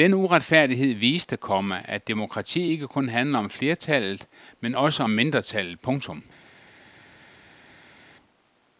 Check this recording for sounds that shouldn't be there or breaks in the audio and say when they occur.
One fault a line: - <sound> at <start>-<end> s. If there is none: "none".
none